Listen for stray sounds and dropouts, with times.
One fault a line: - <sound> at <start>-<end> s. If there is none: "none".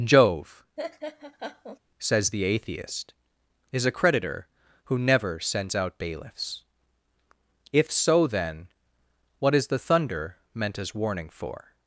- laugh at 0.8-1.8 s